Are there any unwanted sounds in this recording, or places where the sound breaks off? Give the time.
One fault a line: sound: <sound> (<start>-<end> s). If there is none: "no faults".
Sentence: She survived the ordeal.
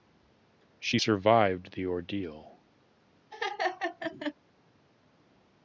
sound: laugh (3.3-4.3 s)